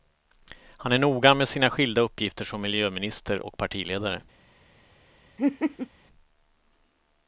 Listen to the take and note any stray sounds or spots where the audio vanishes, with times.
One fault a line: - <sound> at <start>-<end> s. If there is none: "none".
- laugh at 5.4-5.9 s